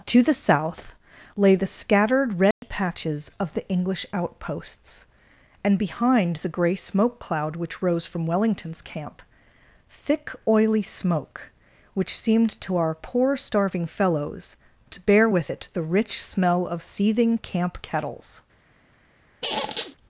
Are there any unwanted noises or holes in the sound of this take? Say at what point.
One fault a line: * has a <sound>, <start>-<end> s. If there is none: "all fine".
* has a dropout, 2.5-2.6 s
* has a squeak, 19.4-20.0 s